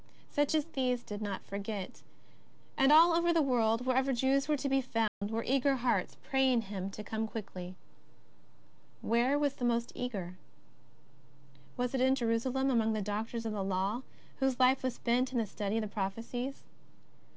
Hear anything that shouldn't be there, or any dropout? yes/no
yes